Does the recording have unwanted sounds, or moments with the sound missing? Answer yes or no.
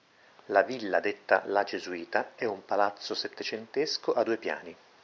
no